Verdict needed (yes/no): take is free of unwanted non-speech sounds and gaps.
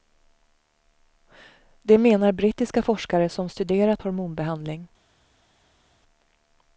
yes